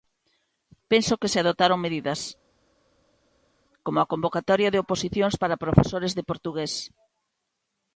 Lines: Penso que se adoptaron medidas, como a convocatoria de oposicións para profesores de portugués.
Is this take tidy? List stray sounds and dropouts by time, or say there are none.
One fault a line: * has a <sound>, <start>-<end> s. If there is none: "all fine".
all fine